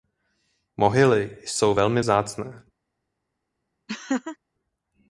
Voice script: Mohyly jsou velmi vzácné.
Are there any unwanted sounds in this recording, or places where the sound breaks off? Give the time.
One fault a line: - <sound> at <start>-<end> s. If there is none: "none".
- laugh at 3.9-4.4 s